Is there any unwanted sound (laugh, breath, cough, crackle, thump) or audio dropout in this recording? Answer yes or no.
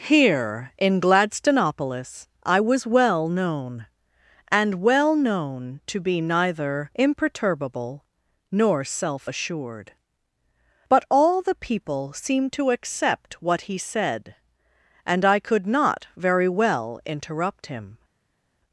no